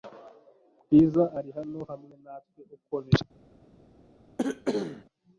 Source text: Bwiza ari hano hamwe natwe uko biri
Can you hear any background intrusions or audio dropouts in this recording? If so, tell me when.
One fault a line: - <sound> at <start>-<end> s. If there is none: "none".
- cough at 4.4-5.0 s